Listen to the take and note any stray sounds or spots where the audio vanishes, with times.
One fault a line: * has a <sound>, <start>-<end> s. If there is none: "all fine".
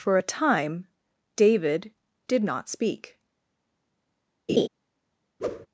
* has a laugh, 4.5-4.7 s
* has a whoosh, 5.4-5.7 s